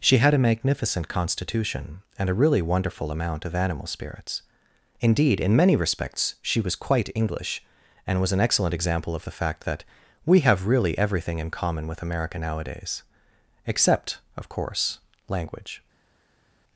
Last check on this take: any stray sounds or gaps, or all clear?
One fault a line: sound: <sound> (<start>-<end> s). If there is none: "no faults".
no faults